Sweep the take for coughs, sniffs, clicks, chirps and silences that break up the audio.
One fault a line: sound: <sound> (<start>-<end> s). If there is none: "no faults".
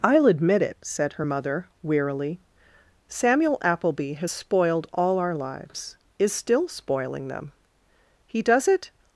no faults